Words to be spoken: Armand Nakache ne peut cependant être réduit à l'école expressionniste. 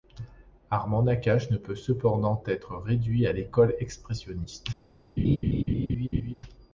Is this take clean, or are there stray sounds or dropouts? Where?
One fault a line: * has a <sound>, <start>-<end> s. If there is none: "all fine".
* has a laugh, 5.2-6.3 s